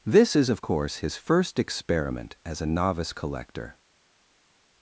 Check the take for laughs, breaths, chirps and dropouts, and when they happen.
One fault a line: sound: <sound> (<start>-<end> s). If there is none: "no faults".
no faults